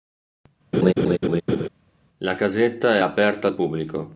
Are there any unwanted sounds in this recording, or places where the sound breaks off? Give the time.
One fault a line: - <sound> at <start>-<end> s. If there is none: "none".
- laugh at 0.7-1.7 s